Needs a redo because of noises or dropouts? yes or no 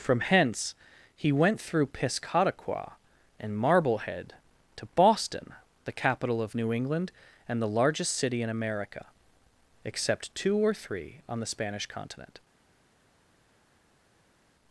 no